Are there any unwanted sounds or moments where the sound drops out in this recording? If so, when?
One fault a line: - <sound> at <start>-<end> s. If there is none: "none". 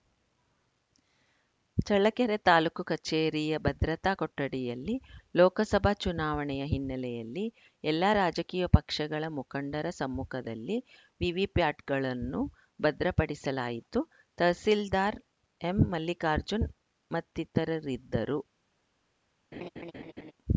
- laugh at 19.5-20.3 s